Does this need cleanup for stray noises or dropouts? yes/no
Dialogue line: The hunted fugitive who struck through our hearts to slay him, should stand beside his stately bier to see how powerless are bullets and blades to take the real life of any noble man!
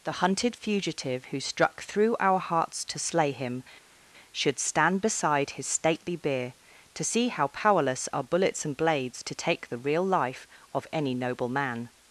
no